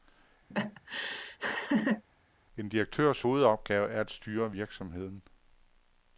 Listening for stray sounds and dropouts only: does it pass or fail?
fail